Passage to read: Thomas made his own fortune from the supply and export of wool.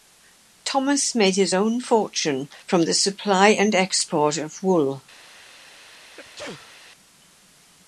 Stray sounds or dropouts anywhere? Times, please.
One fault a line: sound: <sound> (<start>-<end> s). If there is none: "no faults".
sound: sneeze (6.2-6.7 s)